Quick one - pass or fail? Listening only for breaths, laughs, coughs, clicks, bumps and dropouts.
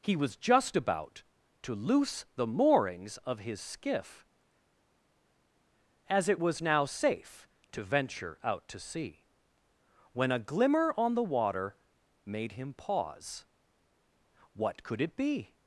pass